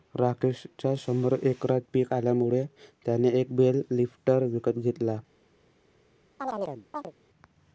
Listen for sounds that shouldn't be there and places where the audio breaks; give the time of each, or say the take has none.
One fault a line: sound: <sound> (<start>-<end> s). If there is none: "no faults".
sound: chirp (6.4-7.1 s)